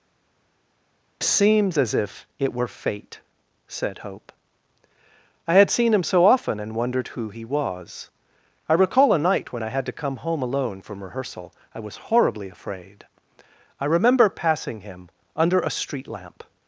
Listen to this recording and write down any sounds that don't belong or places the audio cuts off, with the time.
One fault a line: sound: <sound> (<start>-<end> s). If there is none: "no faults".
no faults